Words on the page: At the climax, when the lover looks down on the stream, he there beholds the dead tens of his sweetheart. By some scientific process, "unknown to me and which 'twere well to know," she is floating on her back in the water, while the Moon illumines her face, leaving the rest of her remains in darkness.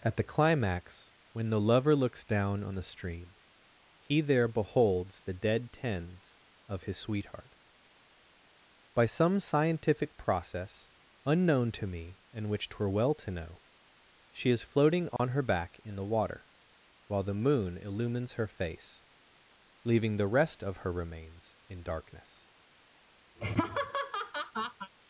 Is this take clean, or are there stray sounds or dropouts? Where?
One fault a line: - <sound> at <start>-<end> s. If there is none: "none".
- dropout at 15.2-15.2 s
- laugh at 23.3-24.9 s